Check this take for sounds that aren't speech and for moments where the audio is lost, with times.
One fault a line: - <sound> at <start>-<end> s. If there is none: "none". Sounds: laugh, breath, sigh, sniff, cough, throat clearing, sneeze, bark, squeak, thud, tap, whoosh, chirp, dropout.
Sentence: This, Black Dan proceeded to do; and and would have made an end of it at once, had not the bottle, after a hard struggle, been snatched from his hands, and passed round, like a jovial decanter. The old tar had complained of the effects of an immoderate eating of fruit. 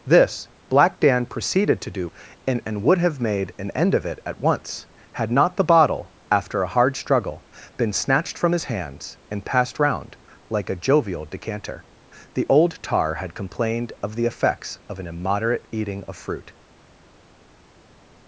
none